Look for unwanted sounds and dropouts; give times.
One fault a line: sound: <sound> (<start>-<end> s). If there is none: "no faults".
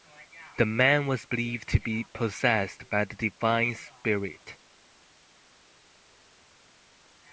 no faults